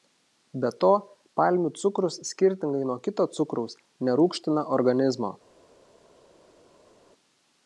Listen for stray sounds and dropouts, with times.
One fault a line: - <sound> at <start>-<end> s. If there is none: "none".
none